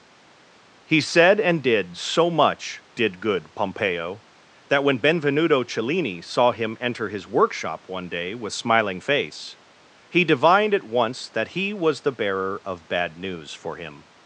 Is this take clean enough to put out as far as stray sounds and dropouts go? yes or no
yes